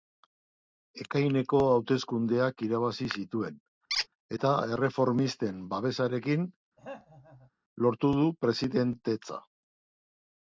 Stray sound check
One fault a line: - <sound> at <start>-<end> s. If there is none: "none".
- squeak at 3.9-4.1 s
- throat clearing at 6.8-7.5 s